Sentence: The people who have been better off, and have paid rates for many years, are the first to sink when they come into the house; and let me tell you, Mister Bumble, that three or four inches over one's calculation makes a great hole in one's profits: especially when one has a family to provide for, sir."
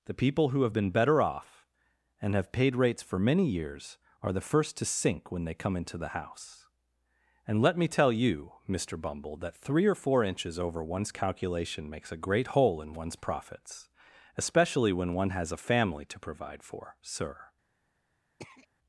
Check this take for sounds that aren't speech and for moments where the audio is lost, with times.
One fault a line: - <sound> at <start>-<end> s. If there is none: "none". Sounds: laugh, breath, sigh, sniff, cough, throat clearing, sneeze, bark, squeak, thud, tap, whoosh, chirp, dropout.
- throat clearing at 18.4-18.7 s